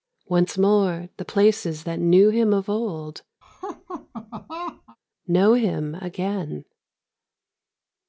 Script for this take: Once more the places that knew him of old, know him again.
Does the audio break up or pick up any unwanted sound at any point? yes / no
yes